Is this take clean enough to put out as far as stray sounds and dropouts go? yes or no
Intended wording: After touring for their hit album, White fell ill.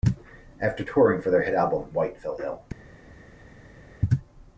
yes